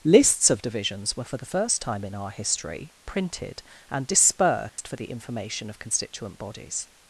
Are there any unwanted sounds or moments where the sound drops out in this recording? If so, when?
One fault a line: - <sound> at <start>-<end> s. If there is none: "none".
- dropout at 4.7-4.8 s